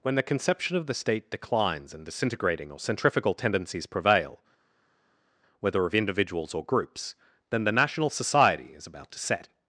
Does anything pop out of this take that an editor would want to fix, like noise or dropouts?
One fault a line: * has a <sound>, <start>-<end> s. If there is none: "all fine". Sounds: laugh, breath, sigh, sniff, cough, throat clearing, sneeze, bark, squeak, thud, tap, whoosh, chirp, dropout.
all fine